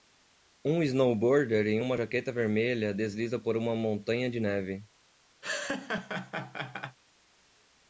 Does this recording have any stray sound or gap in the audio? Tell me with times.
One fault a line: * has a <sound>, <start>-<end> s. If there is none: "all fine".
* has a laugh, 5.4-7.0 s